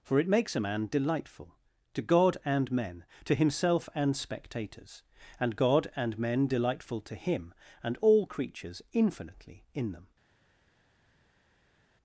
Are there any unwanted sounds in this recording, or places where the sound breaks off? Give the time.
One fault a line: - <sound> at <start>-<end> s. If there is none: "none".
none